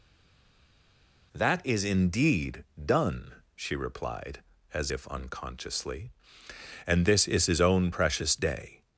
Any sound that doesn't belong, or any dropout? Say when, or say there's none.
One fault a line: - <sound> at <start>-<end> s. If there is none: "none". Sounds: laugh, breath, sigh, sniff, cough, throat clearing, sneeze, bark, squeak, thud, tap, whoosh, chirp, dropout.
none